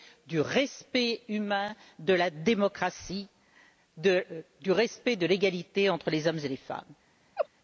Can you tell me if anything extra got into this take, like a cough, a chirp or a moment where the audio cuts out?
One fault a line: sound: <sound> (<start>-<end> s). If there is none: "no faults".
sound: laugh (7.4-7.5 s)